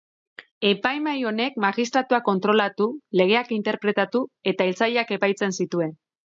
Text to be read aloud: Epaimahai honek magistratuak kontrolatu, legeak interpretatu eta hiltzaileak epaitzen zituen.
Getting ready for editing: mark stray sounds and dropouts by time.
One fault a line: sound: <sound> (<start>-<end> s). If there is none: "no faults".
no faults